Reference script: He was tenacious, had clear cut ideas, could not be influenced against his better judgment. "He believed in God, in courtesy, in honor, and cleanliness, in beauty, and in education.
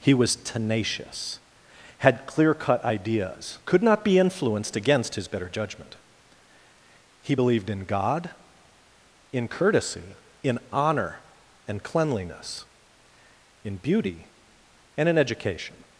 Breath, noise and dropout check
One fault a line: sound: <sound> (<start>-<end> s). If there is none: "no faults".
no faults